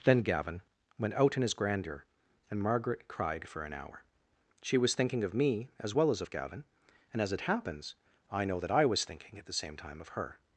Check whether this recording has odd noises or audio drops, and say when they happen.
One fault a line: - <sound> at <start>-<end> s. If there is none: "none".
none